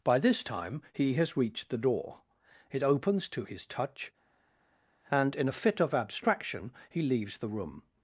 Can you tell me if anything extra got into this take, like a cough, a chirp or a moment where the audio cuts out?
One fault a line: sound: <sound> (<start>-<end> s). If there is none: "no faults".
no faults